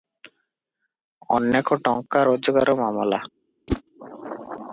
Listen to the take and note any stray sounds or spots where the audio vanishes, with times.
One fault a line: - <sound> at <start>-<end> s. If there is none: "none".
- whoosh at 3.7-3.8 s